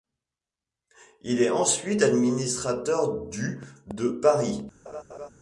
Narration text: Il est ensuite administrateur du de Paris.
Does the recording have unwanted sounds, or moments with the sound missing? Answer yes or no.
yes